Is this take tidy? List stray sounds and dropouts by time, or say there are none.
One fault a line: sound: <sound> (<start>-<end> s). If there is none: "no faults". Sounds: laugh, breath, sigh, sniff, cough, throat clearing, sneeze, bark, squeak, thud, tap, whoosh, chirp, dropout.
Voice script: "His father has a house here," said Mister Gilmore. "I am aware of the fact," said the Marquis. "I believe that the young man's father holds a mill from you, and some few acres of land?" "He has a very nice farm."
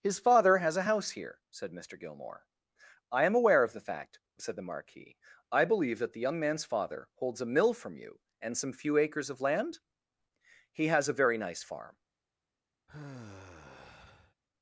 sound: sigh (12.9-14.3 s)